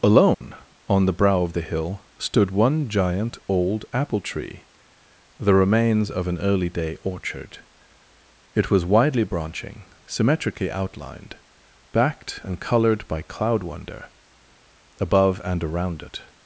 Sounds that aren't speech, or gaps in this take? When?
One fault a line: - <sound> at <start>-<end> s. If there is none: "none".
- dropout at 0.3-0.4 s